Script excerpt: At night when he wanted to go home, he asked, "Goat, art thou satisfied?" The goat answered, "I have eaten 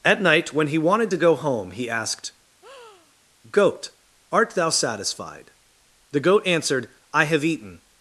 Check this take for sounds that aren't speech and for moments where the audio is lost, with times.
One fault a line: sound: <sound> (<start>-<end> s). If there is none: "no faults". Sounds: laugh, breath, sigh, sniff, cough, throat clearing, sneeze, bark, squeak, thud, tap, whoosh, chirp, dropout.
sound: breath (2.6-3.1 s)